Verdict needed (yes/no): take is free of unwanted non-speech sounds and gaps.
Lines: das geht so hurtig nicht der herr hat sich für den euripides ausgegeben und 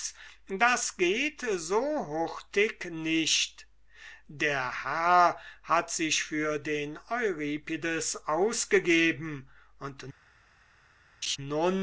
no